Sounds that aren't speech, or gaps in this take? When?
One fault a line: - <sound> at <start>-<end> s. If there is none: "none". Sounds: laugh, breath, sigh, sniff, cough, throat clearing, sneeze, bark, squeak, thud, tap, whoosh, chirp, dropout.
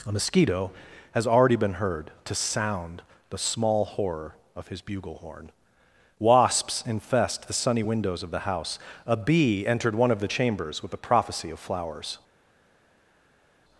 none